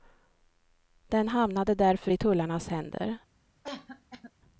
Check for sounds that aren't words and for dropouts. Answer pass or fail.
fail